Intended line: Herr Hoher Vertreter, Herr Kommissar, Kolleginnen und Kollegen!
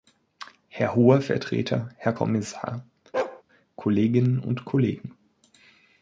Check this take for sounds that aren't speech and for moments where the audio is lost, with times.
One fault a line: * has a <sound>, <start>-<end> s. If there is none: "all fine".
* has a bark, 3.1-3.4 s